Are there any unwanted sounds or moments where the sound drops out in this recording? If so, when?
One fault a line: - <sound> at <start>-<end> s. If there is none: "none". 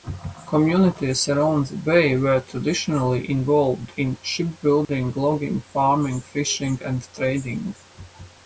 - dropout at 4.8-4.9 s